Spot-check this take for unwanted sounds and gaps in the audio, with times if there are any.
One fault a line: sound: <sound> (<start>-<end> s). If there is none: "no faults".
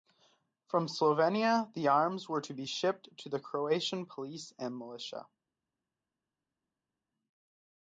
no faults